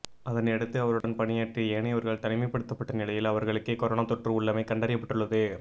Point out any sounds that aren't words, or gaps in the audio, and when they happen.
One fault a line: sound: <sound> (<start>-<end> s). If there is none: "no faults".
sound: dropout (1.0-1.0 s)